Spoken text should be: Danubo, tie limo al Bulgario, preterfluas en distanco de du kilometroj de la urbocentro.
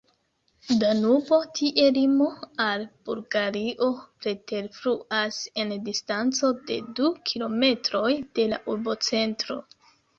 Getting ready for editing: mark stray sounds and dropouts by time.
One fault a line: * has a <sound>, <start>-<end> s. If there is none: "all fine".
all fine